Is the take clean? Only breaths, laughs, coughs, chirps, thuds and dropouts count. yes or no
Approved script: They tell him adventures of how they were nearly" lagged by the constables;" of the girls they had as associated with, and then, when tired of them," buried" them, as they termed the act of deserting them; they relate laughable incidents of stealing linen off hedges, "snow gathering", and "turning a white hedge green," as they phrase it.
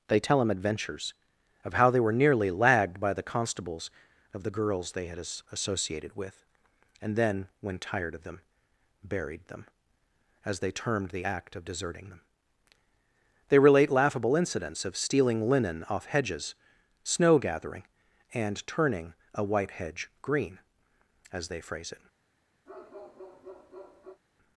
no